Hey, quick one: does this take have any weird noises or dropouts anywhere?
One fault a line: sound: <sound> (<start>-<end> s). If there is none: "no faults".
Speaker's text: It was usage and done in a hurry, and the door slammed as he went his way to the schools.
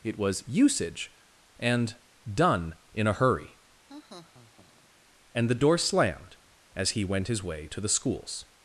sound: laugh (3.9-4.9 s)